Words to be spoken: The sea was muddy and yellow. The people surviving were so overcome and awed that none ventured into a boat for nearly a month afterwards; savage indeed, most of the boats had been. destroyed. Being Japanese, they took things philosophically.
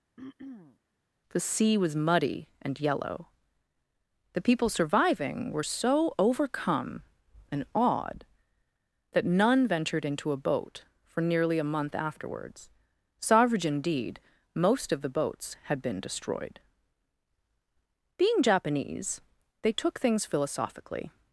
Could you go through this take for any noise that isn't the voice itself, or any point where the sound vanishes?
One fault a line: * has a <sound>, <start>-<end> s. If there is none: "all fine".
* has a throat clearing, 0.2-0.8 s